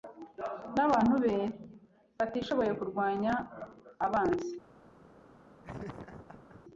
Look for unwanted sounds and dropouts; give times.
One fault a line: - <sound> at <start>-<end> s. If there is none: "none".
- laugh at 5.6-6.6 s